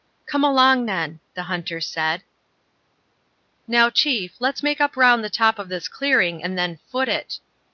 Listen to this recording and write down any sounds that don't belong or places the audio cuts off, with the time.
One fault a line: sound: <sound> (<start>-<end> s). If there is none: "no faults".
no faults